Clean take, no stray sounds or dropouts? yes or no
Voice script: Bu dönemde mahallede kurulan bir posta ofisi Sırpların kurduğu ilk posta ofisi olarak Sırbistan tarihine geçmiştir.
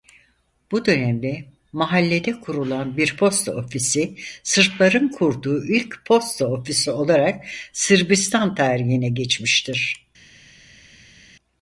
yes